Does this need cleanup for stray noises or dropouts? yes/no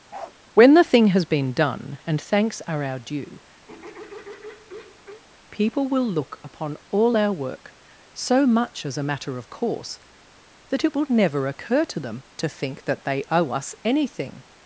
yes